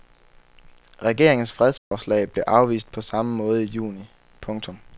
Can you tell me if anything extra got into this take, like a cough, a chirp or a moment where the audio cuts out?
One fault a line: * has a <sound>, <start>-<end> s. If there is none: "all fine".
* has a dropout, 1.8-1.9 s